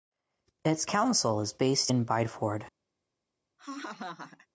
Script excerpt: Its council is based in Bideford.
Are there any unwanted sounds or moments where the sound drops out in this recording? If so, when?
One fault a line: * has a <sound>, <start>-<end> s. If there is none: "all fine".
* has a laugh, 3.6-4.5 s